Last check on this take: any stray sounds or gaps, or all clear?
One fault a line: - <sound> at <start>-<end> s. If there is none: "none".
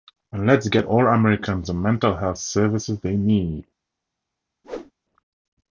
- whoosh at 4.6-4.9 s